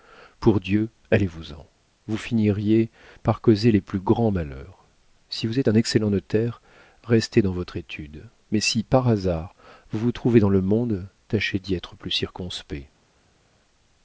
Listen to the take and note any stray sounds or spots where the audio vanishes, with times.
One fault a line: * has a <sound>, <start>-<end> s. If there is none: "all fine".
all fine